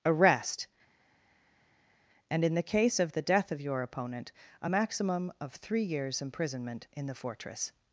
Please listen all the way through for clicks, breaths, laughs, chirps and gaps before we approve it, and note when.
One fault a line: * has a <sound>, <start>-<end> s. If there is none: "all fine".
all fine